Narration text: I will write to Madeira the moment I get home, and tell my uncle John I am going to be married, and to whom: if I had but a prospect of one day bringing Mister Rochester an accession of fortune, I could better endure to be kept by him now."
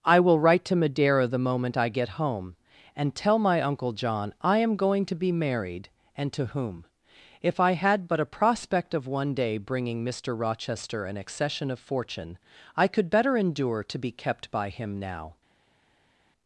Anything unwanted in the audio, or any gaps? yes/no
no